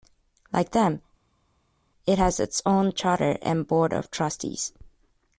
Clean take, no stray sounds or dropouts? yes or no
yes